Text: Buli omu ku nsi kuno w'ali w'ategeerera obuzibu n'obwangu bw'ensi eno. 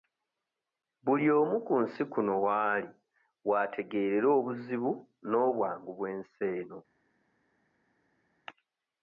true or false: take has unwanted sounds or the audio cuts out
false